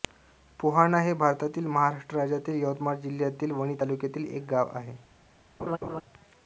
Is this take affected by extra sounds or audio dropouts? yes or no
yes